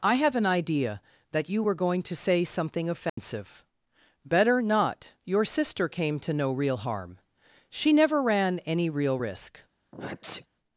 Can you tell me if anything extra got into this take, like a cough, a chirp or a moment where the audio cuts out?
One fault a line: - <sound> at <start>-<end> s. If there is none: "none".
- dropout at 3.1-3.2 s
- sneeze at 9.9-10.5 s